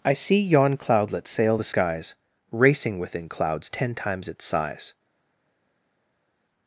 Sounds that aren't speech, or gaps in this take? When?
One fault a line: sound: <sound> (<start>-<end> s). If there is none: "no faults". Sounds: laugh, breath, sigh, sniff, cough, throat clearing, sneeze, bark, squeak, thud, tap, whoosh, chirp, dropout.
no faults